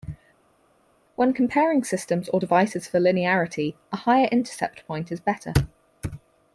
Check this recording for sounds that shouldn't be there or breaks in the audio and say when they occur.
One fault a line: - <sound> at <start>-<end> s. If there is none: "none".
none